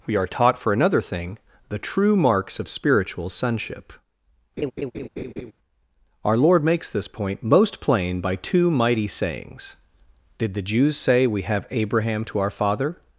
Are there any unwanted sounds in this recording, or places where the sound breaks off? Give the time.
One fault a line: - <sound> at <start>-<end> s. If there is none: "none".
- laugh at 4.6-5.5 s